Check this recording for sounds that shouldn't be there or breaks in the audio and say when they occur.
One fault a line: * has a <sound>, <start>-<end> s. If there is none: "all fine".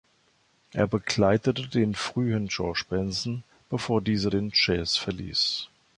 all fine